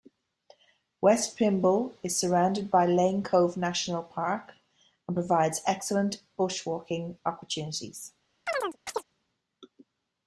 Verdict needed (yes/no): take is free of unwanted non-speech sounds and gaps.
no